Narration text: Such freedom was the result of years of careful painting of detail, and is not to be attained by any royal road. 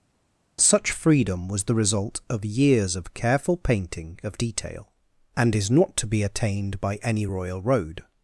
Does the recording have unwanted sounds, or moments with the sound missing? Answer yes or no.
no